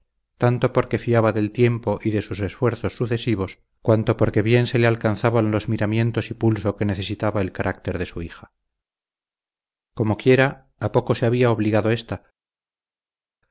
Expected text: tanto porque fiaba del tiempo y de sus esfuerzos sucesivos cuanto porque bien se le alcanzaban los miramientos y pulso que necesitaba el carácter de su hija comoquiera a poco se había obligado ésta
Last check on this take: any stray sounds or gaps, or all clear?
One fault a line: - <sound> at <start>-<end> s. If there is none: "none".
none